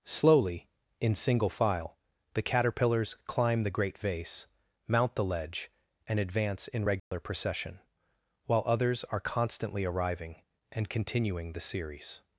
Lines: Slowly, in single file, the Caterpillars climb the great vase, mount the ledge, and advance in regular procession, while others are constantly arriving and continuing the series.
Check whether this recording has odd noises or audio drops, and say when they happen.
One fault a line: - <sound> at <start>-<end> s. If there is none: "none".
- dropout at 7.0-7.1 s